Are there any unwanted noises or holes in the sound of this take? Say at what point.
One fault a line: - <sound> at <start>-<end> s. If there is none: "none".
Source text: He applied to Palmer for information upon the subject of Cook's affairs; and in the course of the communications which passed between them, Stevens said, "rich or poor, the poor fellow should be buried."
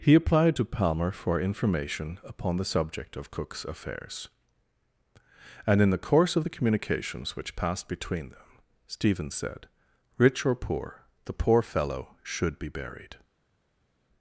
none